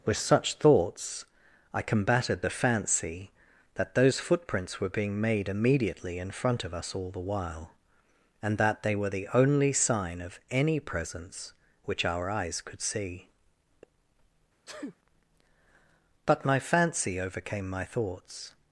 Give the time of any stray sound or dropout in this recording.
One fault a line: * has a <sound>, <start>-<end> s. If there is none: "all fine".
* has a sneeze, 14.7-15.0 s